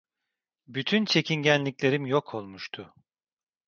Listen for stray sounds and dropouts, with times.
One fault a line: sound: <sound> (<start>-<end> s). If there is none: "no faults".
no faults